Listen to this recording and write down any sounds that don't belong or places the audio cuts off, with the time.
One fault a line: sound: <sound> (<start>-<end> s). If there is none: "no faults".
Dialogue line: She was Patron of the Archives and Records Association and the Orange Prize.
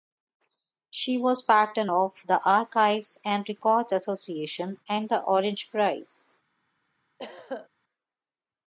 sound: throat clearing (7.2-7.7 s)